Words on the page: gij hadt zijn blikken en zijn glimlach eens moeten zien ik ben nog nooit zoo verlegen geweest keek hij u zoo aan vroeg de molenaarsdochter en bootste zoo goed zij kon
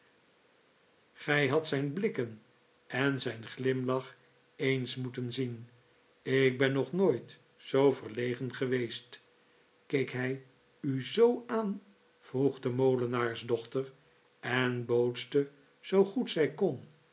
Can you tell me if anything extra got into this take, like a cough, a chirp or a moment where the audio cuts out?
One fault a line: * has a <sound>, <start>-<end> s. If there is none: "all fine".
all fine